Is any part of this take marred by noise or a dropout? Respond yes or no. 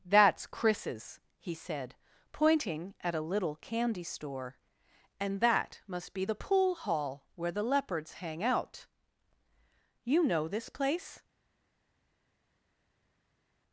no